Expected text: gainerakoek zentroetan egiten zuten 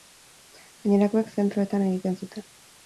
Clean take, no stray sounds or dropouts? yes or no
yes